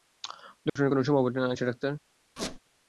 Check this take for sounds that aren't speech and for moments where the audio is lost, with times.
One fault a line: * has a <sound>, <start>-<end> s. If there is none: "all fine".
* has a dropout, 0.7-0.8 s
* has a squeak, 2.4-2.6 s